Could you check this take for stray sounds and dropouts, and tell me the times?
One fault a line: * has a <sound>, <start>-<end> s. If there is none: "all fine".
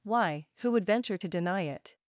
all fine